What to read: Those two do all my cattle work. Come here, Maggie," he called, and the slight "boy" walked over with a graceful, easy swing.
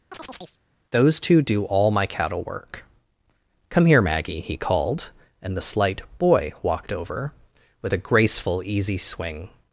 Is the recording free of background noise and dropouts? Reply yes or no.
no